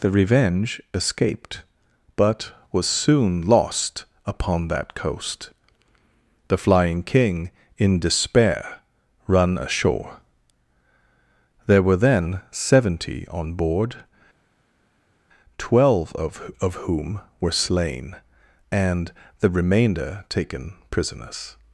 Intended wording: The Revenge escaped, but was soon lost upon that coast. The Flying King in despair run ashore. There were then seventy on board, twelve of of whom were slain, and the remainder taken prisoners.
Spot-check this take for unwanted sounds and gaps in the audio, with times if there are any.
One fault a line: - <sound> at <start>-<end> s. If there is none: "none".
none